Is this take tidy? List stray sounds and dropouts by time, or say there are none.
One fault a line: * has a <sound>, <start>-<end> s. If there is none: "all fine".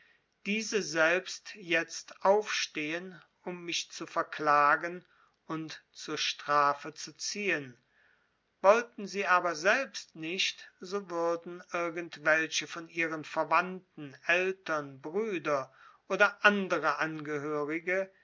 all fine